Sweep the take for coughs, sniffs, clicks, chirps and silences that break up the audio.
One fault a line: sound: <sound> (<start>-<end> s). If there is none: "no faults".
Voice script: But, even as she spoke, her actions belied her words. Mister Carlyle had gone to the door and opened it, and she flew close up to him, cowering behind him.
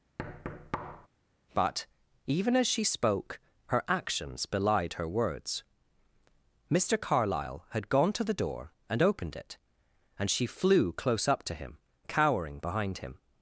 sound: thud (0.2-1.1 s)